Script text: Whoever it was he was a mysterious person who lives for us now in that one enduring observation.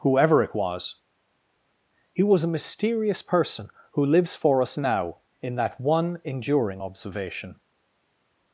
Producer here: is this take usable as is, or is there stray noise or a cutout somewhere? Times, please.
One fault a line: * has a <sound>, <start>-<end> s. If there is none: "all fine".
all fine